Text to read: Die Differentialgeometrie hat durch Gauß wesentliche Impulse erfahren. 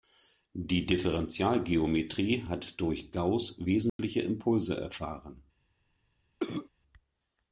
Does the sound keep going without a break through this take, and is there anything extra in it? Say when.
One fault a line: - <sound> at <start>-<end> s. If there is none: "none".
- dropout at 3.9-4.0 s
- cough at 6.4-6.7 s